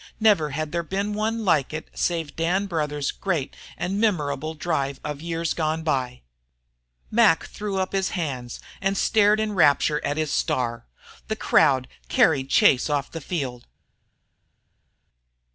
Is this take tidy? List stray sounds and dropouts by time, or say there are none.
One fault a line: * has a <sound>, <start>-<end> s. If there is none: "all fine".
all fine